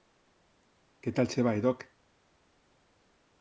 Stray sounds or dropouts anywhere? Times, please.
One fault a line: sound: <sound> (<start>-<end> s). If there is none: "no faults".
no faults